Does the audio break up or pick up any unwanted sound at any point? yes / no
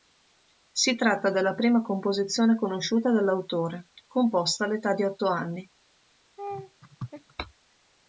yes